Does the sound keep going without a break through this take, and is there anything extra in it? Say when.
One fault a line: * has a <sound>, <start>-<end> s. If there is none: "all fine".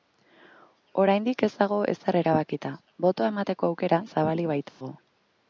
* has a dropout, 4.7-4.8 s